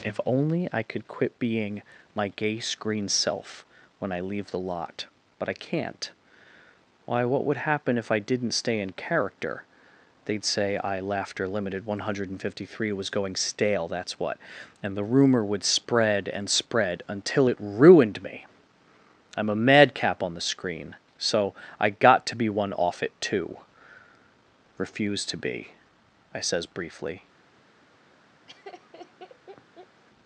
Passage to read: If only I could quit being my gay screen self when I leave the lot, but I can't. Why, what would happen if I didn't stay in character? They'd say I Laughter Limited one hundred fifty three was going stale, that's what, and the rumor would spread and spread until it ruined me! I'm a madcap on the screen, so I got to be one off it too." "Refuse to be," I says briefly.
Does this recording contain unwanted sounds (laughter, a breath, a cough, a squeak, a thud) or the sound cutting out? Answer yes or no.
yes